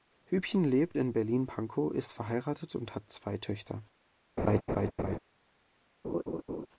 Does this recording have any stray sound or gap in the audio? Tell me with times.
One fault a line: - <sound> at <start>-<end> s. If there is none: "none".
- laugh at 4.4-5.2 s
- laugh at 6.0-6.7 s